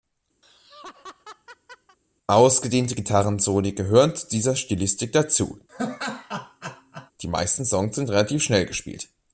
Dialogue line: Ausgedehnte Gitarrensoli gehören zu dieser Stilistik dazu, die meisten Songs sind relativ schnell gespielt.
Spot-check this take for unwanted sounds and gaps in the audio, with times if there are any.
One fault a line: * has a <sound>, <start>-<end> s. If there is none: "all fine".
* has a laugh, 0.4-2.0 s
* has a laugh, 5.7-7.1 s